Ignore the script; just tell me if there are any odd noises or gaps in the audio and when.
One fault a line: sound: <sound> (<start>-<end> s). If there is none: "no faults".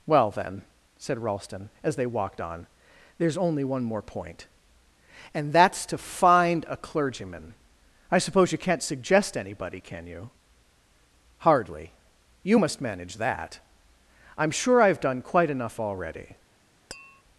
sound: tap (16.9-17.2 s)